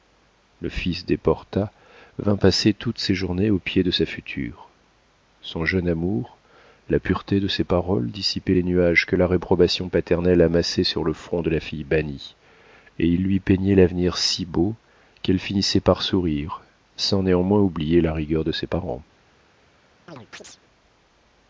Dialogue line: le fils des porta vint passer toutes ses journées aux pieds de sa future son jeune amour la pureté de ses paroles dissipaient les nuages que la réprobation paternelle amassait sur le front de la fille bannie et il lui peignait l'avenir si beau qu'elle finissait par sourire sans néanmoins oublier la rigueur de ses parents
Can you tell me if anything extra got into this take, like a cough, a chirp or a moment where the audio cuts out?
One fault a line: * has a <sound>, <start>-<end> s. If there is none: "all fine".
* has a chirp, 20.1-20.6 s